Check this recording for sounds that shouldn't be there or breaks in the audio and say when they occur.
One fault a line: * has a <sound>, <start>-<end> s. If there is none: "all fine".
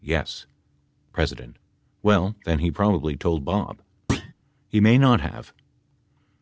* has a thud, 4.1-4.3 s